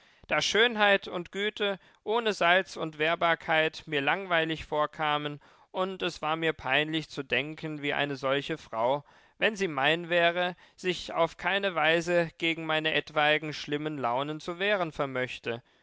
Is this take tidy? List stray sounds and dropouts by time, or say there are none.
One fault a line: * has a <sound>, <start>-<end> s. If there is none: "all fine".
all fine